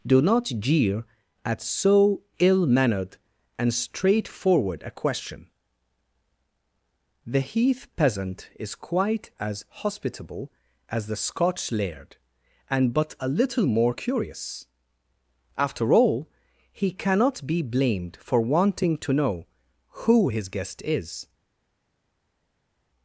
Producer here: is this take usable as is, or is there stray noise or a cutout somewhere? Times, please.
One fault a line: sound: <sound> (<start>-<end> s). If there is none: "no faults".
no faults